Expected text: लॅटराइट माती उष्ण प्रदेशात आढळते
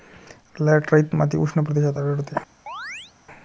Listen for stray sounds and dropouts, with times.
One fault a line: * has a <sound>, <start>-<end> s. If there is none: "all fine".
* has a chirp, 2.7-3.1 s